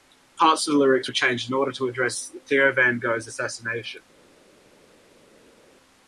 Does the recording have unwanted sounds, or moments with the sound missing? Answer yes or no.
no